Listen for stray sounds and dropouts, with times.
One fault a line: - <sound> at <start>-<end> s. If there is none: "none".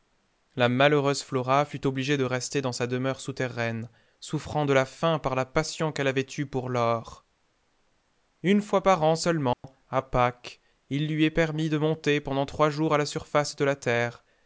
- dropout at 9.5-9.6 s